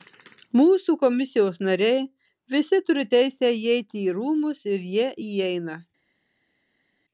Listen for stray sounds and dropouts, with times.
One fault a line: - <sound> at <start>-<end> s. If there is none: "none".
none